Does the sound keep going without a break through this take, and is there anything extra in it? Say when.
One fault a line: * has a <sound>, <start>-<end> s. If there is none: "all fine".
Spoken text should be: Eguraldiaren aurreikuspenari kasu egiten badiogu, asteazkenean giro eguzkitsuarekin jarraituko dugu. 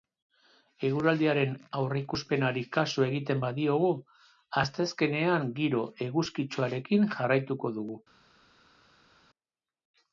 all fine